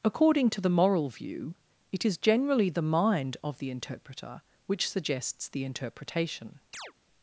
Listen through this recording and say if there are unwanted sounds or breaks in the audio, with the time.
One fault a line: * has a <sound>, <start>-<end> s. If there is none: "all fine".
* has a chirp, 6.7-6.9 s